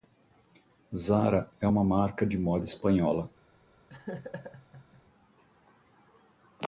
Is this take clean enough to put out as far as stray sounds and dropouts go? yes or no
no